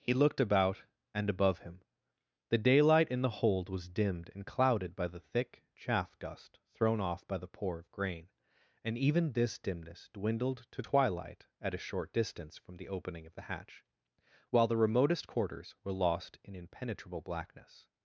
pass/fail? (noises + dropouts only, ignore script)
pass